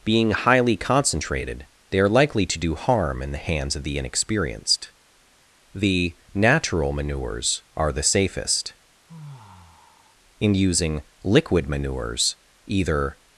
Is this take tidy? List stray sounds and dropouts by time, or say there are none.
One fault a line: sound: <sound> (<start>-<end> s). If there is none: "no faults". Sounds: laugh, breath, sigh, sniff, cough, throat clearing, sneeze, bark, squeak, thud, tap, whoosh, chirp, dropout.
sound: sigh (9.1-10.2 s)